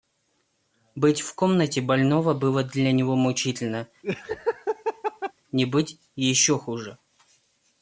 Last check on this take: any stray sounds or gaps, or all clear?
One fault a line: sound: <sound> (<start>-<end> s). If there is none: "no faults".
sound: laugh (4.0-5.3 s)